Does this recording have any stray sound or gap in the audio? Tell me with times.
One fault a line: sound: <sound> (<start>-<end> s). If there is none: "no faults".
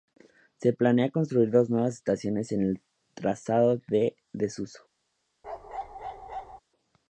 sound: bark (5.4-6.6 s)